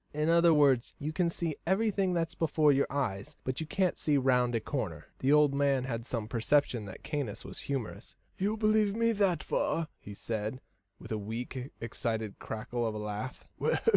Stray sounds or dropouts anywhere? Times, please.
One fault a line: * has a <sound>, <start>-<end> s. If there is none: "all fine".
all fine